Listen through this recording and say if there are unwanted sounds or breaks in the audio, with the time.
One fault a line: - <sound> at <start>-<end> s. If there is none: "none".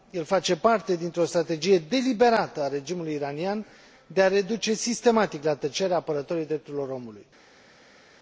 none